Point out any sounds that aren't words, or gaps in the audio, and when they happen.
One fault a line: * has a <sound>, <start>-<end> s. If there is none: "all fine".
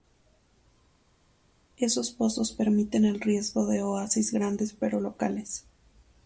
all fine